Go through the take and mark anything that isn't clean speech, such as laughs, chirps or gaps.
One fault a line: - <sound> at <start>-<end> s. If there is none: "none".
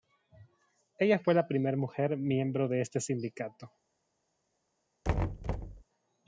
- thud at 5.0-5.8 s